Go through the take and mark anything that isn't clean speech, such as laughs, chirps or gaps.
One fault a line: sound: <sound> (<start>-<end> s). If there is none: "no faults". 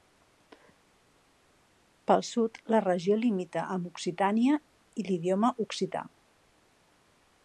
no faults